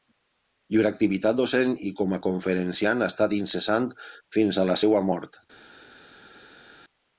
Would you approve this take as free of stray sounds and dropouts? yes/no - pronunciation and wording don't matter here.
yes